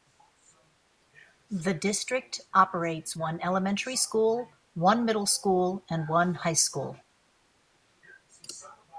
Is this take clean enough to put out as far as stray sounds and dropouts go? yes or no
yes